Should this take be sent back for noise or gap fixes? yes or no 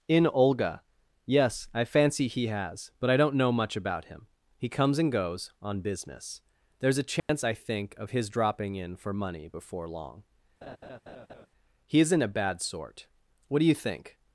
yes